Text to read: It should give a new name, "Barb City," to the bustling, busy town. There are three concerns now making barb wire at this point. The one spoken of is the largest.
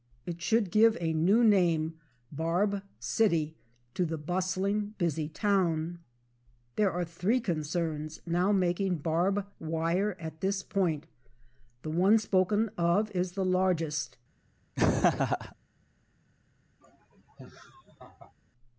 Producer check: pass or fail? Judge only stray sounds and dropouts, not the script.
fail